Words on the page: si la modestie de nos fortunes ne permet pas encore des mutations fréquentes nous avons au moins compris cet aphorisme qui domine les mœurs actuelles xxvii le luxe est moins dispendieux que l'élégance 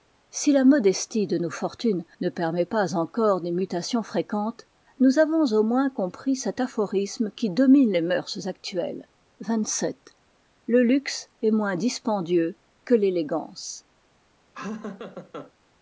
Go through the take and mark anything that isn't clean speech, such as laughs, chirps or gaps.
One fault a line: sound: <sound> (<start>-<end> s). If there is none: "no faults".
sound: laugh (14.5-15.5 s)